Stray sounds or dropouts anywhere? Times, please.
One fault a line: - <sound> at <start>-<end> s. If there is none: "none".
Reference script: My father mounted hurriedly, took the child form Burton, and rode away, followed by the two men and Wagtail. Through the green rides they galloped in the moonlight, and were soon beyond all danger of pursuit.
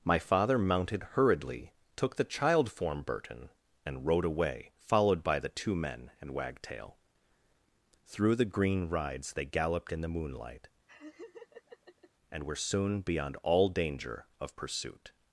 - laugh at 10.9-12.1 s